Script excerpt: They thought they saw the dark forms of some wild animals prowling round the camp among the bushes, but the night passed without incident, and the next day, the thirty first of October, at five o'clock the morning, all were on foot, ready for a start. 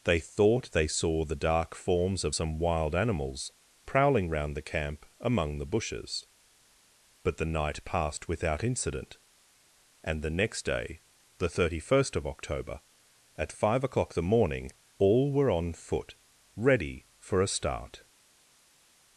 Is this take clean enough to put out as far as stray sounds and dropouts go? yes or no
yes